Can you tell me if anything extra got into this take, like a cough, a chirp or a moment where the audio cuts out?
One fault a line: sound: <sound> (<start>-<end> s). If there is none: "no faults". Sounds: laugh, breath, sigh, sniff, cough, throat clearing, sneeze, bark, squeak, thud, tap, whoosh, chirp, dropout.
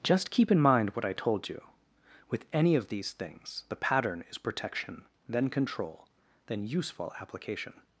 no faults